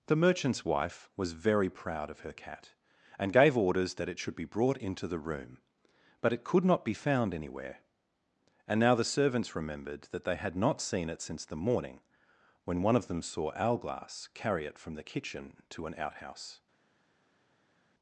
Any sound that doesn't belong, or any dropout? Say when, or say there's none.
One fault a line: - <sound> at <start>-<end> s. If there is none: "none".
none